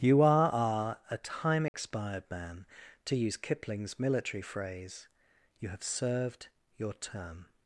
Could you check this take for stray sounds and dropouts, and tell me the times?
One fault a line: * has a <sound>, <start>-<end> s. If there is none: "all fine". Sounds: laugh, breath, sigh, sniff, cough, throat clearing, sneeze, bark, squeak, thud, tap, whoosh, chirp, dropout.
* has a dropout, 1.7-1.7 s